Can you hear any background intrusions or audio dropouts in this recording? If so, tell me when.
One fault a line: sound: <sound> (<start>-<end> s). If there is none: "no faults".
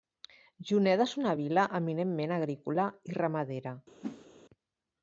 sound: whoosh (4.0-4.3 s)